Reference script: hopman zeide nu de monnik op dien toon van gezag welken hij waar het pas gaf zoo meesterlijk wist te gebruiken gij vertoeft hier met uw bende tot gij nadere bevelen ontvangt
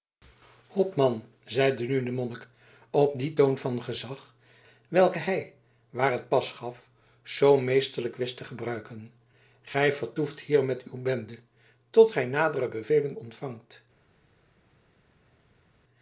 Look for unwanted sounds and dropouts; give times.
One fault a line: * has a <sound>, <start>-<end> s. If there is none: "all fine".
all fine